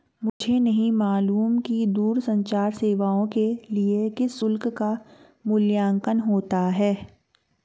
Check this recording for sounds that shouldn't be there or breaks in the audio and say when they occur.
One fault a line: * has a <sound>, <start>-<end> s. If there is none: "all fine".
* has a dropout, 0.3-0.4 s